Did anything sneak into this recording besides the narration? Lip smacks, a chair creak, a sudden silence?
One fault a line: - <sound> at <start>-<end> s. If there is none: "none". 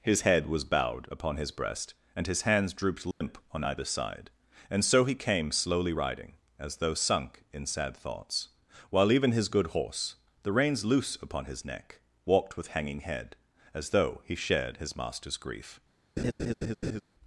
- dropout at 3.1-3.2 s
- laugh at 16.2-17.0 s